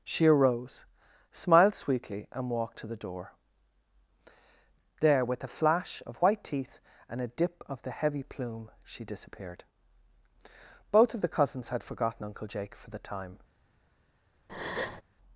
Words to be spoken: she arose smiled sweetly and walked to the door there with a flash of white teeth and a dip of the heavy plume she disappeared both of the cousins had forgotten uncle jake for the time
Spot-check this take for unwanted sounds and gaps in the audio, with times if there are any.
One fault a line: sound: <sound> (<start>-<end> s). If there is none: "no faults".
sound: breath (14.5-15.0 s)